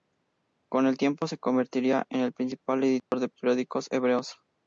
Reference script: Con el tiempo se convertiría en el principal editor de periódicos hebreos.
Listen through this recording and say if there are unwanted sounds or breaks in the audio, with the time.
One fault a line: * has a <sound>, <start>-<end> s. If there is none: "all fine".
* has a dropout, 3.0-3.1 s